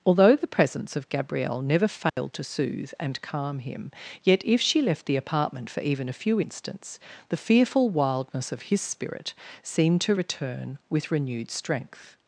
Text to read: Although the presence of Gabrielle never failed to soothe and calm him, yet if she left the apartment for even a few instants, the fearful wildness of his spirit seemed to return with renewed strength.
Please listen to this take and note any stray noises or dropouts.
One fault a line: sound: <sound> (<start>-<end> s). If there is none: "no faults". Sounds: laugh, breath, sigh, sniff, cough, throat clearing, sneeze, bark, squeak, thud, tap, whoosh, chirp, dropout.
sound: dropout (2.1-2.2 s)